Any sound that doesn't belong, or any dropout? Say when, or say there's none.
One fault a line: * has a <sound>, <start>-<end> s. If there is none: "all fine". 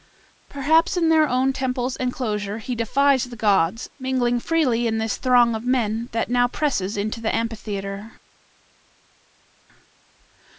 all fine